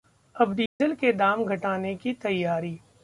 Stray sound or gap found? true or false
true